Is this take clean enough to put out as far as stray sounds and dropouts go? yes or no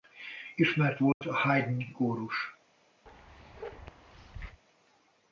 no